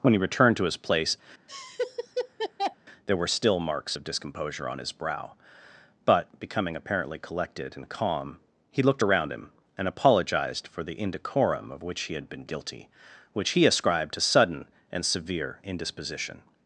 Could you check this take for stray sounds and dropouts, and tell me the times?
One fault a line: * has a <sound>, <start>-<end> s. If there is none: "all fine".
* has a laugh, 1.5-2.8 s